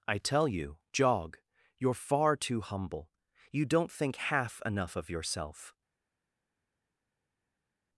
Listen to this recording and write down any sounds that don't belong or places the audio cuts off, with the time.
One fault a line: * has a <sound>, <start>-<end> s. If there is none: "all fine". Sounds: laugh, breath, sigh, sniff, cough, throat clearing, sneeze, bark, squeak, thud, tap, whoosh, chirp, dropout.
all fine